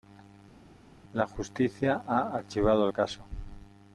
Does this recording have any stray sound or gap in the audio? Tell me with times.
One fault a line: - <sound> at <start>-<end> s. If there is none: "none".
none